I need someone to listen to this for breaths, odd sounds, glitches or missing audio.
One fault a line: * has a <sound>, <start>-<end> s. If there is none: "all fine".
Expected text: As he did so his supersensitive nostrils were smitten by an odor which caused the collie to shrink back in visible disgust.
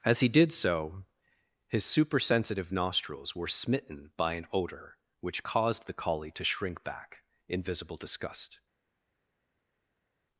all fine